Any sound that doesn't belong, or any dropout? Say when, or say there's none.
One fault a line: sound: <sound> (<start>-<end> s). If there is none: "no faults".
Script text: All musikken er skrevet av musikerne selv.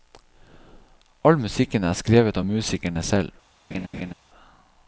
sound: laugh (3.7-4.1 s)